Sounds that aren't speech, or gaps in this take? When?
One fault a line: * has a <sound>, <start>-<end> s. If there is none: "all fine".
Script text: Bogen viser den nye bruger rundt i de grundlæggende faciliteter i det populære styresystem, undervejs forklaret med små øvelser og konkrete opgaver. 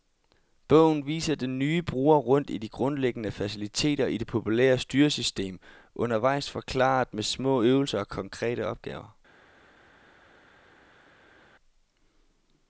all fine